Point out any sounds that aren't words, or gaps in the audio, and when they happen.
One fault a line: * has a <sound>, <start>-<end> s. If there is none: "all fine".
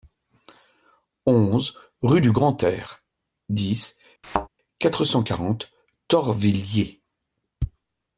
* has a thud, 4.2-4.5 s